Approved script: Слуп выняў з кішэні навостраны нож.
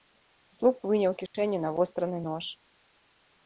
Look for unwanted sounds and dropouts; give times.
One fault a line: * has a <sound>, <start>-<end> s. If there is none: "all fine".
* has a dropout, 1.3-1.3 s